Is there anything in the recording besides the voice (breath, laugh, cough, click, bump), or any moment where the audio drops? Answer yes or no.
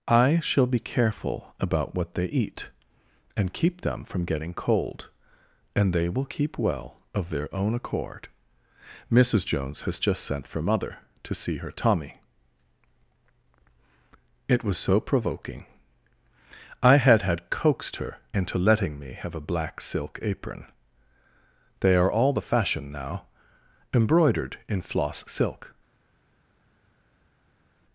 no